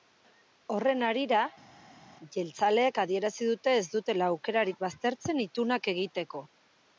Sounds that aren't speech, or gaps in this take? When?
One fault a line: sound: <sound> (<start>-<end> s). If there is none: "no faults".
no faults